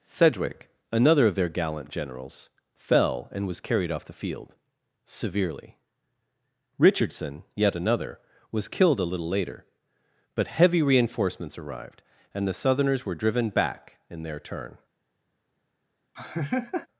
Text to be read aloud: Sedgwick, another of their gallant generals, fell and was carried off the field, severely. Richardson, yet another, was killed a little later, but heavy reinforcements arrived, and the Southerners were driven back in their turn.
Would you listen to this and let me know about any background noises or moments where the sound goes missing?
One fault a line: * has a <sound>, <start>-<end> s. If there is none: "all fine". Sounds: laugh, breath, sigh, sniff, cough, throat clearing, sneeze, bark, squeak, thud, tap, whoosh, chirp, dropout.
* has a laugh, 16.2-16.9 s